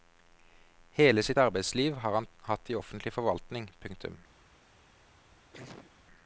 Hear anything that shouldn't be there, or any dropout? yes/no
yes